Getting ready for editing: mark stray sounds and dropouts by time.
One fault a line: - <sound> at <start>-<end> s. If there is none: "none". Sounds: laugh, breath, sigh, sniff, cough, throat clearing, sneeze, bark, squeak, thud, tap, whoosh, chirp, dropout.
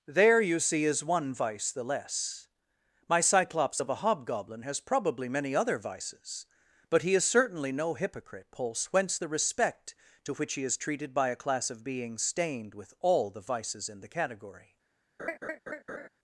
- laugh at 15.2-16.1 s